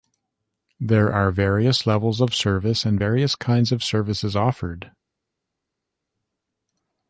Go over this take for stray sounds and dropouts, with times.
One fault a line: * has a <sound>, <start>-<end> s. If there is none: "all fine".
all fine